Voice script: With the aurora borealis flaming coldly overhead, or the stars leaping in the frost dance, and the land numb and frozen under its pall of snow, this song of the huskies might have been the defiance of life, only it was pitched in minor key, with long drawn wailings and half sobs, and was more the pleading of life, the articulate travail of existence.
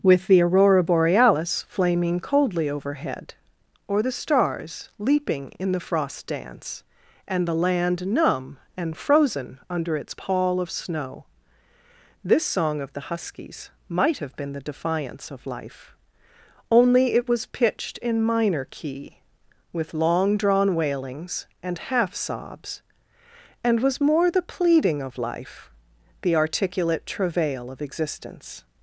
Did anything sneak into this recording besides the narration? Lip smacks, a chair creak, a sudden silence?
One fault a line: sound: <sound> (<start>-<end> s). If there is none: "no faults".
no faults